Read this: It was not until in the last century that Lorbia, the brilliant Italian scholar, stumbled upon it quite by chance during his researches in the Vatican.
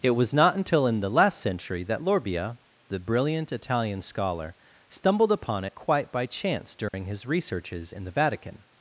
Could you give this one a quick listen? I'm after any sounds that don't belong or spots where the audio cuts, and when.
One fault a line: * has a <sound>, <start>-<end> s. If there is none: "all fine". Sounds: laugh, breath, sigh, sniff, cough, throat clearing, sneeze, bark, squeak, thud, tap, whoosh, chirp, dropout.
* has a dropout, 6.9-6.9 s